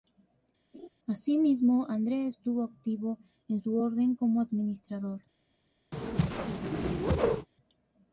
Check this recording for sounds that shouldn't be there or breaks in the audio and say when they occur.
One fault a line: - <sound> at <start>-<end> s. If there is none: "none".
- laugh at 0.7-0.9 s
- whoosh at 5.9-7.5 s